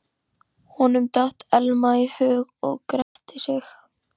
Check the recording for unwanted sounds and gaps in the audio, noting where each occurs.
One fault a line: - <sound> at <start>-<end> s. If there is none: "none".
- dropout at 3.0-3.2 s